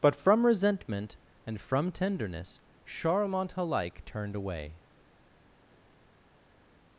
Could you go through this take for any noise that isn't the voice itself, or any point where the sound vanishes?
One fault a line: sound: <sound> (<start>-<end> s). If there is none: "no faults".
no faults